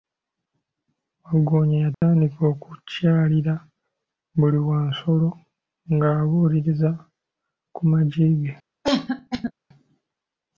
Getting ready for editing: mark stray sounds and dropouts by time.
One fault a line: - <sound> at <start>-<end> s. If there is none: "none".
- dropout at 1.9-2.0 s
- cough at 8.8-9.5 s